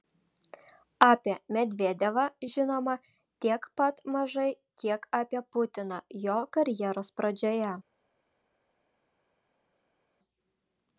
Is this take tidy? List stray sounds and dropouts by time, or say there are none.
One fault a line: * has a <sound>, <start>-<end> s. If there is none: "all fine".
all fine